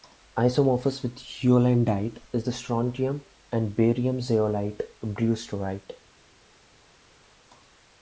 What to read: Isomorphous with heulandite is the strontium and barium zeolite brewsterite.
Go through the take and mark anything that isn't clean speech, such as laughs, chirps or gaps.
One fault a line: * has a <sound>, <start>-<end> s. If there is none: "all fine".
all fine